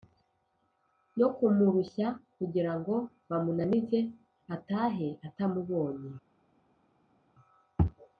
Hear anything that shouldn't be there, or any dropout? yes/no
no